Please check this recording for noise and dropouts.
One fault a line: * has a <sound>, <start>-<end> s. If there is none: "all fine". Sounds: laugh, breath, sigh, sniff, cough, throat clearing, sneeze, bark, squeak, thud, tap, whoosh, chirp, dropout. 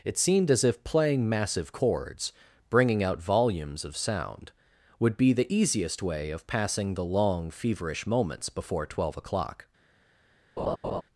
* has a laugh, 10.6-11.0 s